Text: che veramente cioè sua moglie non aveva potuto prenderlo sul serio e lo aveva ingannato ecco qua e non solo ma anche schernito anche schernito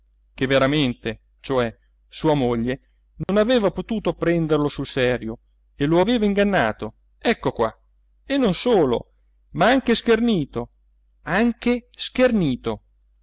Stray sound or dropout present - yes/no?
yes